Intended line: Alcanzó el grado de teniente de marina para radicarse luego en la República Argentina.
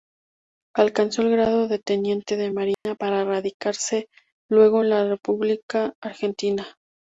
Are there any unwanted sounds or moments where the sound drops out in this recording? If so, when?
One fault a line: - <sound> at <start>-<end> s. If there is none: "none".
- dropout at 2.7-2.9 s